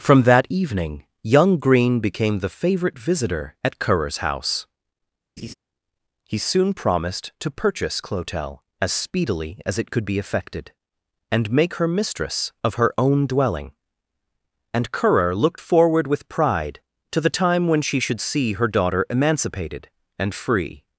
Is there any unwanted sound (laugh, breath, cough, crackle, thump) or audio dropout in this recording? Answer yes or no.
yes